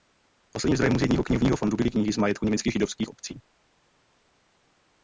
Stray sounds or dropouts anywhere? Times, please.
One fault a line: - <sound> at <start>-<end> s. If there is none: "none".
none